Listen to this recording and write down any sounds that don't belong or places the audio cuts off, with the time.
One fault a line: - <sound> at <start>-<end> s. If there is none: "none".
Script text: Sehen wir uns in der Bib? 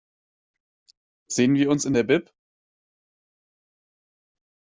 none